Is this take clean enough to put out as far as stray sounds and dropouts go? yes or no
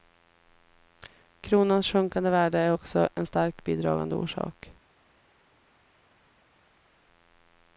yes